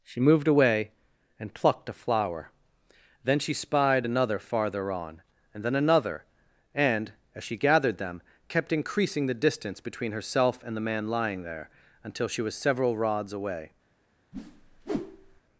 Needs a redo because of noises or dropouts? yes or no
yes